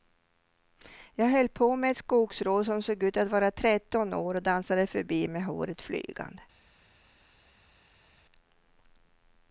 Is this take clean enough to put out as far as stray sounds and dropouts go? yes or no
yes